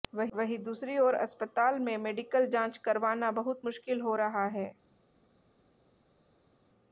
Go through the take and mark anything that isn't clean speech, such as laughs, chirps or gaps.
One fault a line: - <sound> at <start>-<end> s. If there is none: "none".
none